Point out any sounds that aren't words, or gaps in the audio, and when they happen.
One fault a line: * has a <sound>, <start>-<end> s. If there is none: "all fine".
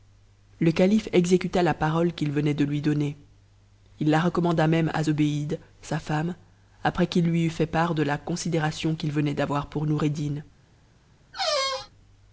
* has a squeak, 11.3-11.9 s